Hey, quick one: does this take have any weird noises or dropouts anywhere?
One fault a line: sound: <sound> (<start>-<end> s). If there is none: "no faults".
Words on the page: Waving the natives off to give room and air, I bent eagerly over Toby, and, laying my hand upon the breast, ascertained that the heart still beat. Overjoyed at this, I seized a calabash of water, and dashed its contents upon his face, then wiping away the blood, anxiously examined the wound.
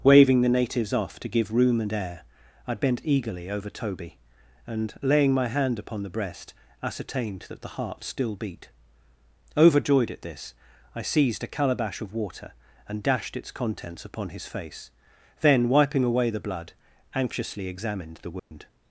sound: dropout (18.4-18.5 s)